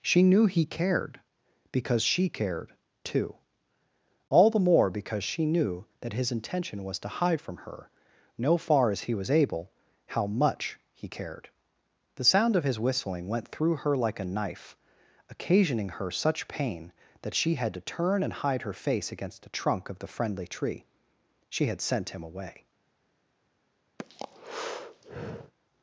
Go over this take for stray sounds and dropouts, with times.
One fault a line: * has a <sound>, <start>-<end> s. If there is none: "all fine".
* has a breath, 24.0-25.5 s